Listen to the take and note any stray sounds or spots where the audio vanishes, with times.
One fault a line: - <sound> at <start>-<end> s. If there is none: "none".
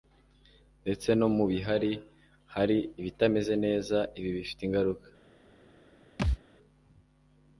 - thud at 6.2-6.4 s